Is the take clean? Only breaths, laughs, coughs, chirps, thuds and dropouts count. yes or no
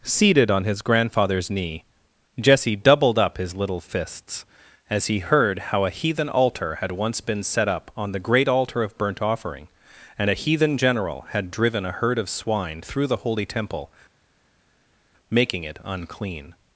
yes